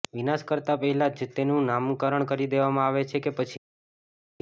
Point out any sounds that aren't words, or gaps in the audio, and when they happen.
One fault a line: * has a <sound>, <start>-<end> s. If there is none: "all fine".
all fine